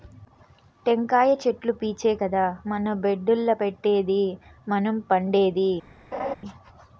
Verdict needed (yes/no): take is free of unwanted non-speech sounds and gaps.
no